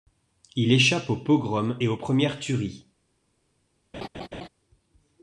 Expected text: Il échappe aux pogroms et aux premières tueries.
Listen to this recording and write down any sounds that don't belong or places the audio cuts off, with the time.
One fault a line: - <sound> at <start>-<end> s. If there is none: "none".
- laugh at 3.9-4.5 s